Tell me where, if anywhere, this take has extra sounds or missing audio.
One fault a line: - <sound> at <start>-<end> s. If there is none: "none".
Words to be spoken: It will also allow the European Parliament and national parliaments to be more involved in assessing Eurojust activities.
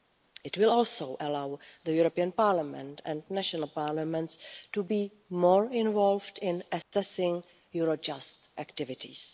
- dropout at 6.8-6.9 s